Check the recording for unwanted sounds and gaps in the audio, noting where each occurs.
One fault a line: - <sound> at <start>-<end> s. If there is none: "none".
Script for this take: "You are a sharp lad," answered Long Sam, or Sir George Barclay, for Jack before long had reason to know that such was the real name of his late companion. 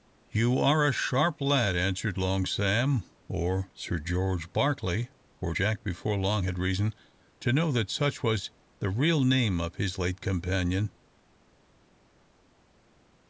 none